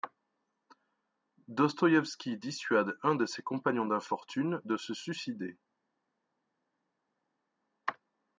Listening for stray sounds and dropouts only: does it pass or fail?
pass